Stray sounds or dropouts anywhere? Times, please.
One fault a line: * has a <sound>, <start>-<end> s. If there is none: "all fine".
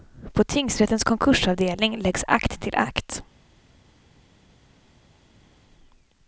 all fine